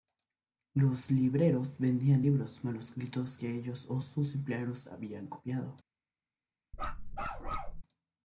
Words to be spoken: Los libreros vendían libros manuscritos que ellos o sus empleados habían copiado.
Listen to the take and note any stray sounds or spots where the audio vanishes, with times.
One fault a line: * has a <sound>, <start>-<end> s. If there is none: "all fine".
* has a bark, 6.7-7.8 s